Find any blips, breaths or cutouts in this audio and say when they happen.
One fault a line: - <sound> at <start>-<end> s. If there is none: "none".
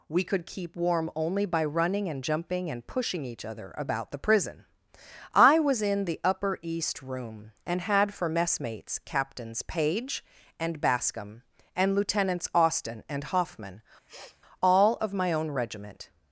- sniff at 14.1-14.4 s